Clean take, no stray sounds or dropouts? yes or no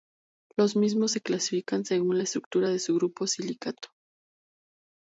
yes